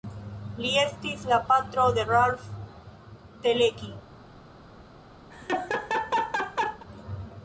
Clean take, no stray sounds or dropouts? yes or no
no